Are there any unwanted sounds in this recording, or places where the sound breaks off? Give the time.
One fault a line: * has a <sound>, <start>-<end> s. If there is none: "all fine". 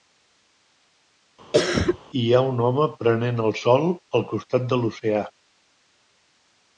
* has a cough, 1.5-2.0 s